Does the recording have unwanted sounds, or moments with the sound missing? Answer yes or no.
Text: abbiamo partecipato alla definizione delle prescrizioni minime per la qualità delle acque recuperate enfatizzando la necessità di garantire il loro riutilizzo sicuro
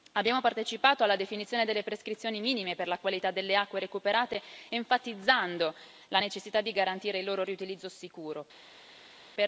no